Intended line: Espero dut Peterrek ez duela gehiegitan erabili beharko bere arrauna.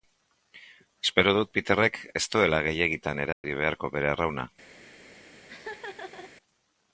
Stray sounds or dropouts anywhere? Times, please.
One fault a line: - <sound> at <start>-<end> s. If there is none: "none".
- dropout at 3.3-3.4 s
- laugh at 5.5-6.3 s